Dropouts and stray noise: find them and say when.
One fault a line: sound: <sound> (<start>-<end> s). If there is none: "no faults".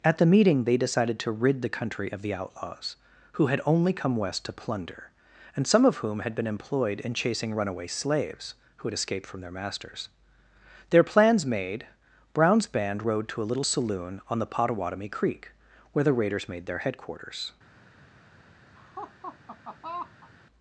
sound: laugh (18.7-20.3 s)